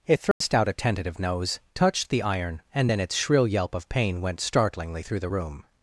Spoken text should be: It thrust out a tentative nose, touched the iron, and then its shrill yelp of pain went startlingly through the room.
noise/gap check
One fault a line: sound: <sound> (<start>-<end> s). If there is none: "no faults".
sound: dropout (0.3-0.4 s)